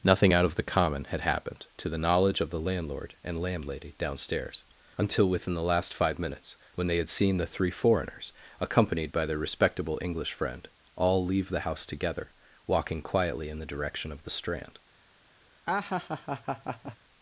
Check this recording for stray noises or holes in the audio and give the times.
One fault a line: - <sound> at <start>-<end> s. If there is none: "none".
- laugh at 15.7-17.0 s